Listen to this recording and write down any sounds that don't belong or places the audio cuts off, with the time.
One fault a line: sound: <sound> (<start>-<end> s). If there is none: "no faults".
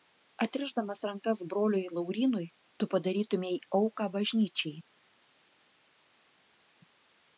no faults